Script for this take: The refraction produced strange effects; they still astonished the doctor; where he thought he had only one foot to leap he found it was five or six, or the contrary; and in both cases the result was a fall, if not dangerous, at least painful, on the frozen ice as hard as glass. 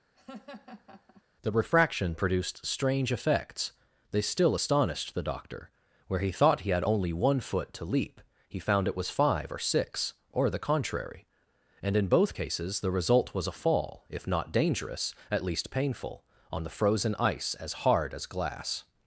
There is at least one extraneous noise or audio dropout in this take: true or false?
true